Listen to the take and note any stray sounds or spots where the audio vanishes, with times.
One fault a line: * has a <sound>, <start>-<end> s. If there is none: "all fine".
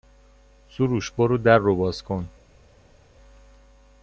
all fine